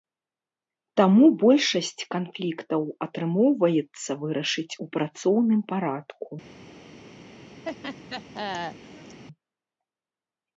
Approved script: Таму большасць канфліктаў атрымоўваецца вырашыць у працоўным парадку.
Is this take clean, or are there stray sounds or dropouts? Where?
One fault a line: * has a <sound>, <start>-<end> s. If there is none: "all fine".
* has a laugh, 7.6-9.2 s